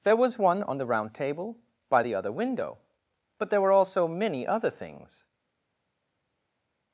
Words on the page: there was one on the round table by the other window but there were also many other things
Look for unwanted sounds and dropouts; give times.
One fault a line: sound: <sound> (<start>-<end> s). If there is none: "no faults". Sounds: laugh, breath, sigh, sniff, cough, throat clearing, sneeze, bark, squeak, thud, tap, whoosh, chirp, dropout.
no faults